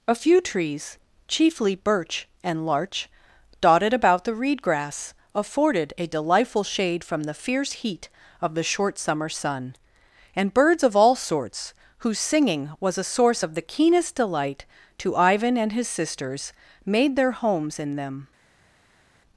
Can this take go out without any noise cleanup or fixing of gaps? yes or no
yes